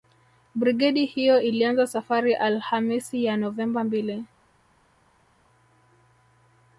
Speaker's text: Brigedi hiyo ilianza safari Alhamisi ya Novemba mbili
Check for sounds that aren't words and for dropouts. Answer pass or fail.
pass